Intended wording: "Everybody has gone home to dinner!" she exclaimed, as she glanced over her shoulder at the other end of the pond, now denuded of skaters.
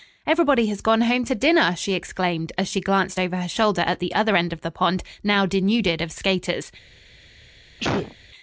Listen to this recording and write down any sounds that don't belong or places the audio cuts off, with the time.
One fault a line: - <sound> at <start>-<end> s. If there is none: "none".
- sneeze at 7.8-8.2 s